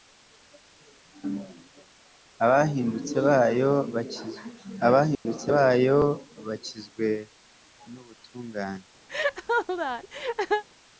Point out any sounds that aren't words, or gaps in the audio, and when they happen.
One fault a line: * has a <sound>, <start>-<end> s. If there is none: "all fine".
* has a dropout, 5.1-5.3 s
* has a laugh, 9.1-10.6 s